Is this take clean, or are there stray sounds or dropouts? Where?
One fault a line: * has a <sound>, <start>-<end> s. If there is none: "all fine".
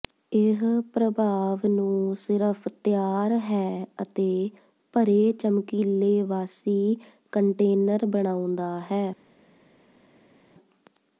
all fine